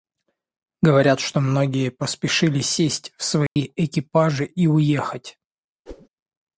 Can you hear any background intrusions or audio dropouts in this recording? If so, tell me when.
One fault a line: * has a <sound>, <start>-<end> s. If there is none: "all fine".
* has a dropout, 3.5-3.6 s
* has a whoosh, 5.9-6.1 s